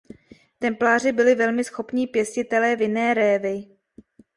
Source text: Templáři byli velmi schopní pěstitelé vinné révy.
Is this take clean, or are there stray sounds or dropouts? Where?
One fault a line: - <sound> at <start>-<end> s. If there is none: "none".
none